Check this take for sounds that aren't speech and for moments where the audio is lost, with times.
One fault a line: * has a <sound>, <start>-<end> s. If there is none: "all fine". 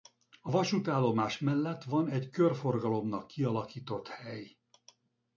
all fine